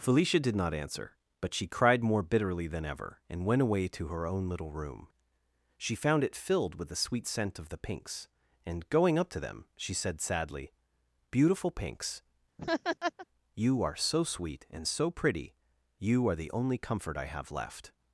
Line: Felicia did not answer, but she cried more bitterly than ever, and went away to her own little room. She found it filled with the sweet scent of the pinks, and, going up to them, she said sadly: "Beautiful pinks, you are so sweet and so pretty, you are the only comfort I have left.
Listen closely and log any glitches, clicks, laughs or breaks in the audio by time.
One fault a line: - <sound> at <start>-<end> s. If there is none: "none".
- laugh at 12.6-13.3 s